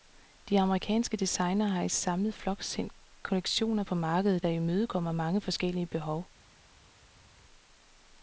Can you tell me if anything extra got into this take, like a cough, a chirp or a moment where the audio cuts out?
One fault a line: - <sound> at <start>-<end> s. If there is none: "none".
none